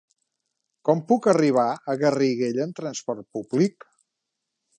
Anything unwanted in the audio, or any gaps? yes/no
no